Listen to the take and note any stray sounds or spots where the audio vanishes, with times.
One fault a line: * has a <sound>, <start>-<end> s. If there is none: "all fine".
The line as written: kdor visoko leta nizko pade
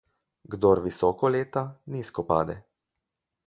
all fine